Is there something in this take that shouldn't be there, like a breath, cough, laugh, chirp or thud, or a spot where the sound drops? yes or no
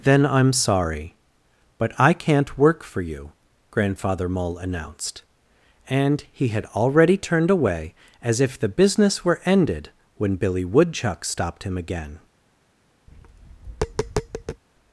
yes